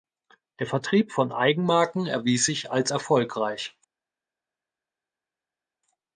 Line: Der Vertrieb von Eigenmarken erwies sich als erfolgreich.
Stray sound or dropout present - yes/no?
no